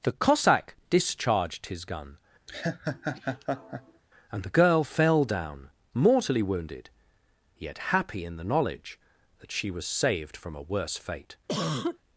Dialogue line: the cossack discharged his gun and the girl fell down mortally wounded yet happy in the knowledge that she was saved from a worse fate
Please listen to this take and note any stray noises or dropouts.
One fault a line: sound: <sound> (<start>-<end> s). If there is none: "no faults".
sound: laugh (2.5-4.0 s)
sound: cough (11.5-12.0 s)